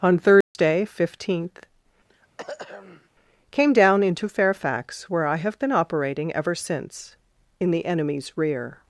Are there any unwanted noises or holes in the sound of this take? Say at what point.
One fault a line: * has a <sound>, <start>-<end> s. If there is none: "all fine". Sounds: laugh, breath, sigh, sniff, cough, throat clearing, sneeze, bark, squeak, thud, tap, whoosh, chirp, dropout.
* has a dropout, 0.4-0.5 s
* has a throat clearing, 2.1-3.1 s